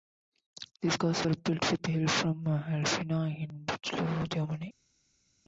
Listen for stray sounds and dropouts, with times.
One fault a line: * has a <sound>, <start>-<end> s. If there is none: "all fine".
all fine